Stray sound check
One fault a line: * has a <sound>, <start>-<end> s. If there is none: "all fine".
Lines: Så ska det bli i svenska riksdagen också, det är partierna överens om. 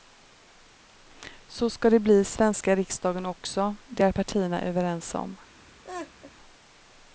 * has a laugh, 5.8-6.3 s